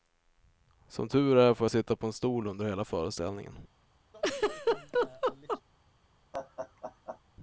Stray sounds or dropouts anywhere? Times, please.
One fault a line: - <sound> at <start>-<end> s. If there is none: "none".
- laugh at 4.1-5.6 s
- laugh at 6.3-7.2 s